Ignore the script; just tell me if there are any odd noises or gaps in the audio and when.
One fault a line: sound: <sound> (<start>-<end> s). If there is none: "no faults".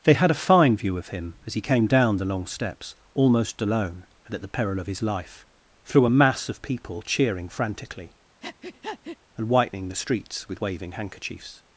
sound: breath (8.4-9.2 s)